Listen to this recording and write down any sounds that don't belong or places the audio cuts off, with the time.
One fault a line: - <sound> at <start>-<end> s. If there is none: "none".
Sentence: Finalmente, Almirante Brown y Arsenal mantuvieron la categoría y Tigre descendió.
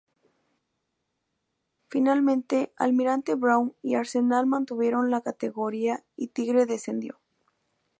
none